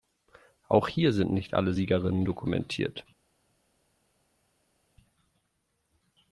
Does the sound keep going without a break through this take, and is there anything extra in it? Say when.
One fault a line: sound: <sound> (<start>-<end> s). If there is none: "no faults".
no faults